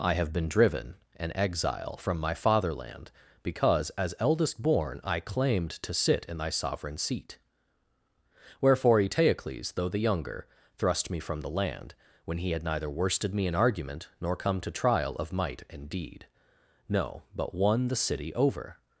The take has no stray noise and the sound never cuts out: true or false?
true